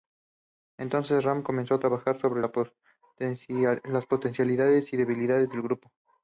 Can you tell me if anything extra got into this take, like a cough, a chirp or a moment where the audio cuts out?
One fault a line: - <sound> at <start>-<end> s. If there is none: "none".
none